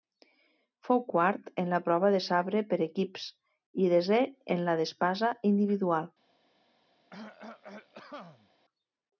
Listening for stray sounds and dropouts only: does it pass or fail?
fail